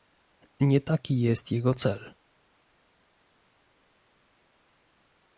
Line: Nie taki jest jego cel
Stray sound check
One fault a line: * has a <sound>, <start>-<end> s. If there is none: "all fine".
all fine